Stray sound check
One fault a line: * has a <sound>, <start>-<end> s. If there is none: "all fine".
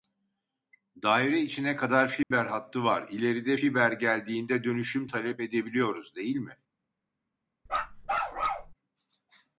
* has a dropout, 2.2-2.3 s
* has a bark, 7.7-8.7 s